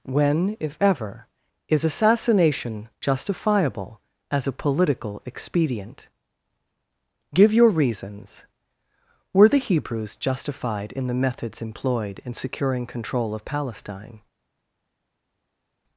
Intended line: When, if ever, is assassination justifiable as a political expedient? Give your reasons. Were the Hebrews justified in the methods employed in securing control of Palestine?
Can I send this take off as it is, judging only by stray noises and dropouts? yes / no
yes